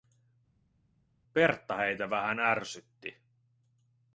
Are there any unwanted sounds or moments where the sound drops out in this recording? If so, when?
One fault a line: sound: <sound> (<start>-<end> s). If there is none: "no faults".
no faults